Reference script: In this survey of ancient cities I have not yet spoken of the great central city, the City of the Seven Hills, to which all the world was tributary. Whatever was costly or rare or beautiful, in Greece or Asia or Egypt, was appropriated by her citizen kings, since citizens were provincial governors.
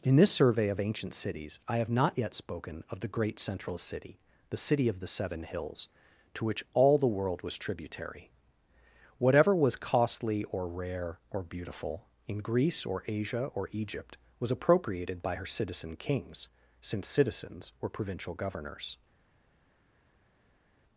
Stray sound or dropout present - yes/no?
no